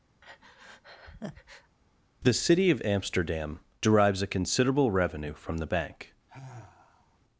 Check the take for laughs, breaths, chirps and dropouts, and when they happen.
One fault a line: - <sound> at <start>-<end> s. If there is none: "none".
- breath at 0.2-1.8 s
- sigh at 6.3-7.2 s